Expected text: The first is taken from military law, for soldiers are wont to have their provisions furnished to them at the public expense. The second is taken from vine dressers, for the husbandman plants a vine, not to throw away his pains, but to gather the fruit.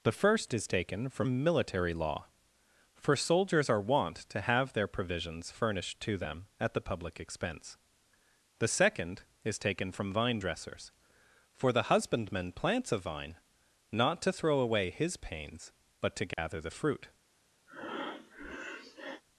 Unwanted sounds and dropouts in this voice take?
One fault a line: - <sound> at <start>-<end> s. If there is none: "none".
- dropout at 16.3-16.4 s
- breath at 17.7-19.2 s